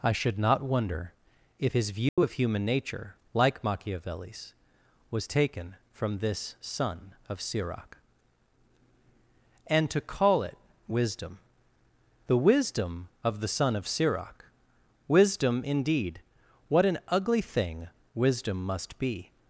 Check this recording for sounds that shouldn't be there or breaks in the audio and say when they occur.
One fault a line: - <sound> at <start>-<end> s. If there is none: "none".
- dropout at 2.1-2.2 s